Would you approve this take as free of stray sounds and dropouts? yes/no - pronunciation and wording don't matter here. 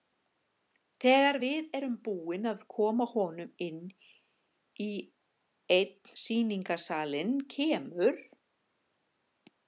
yes